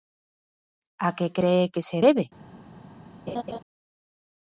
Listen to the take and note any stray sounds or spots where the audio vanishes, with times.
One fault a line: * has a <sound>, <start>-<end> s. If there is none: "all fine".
* has a laugh, 3.3-3.6 s